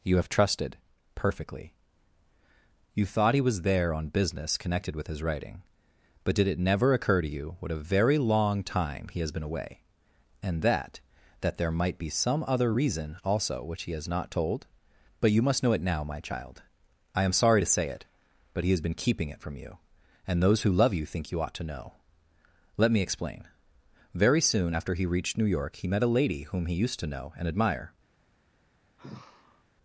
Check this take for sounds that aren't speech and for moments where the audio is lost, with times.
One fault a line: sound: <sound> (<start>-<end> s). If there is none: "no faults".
sound: sigh (29.0-29.6 s)